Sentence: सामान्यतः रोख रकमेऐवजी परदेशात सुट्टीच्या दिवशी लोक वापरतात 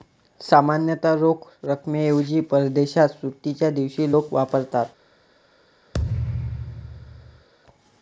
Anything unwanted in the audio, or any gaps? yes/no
yes